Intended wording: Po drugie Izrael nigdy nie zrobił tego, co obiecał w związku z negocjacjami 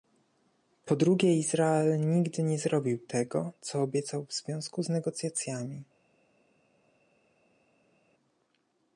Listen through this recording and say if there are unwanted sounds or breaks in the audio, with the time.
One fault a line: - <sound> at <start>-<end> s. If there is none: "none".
none